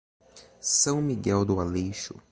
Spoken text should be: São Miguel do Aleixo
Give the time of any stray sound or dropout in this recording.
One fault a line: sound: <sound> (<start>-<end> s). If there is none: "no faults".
no faults